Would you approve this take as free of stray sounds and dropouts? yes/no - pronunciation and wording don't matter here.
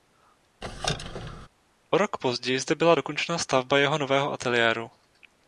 no